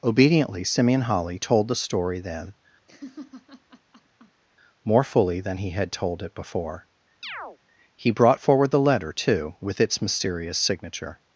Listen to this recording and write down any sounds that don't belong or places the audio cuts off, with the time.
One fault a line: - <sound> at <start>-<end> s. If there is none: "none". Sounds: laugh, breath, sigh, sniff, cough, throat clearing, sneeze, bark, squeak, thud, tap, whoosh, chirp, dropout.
- laugh at 2.9-4.4 s
- chirp at 7.2-7.6 s